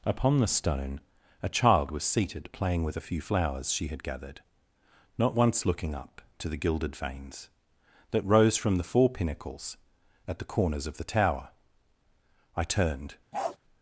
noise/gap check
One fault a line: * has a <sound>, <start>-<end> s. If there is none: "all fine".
* has a bark, 13.3-13.6 s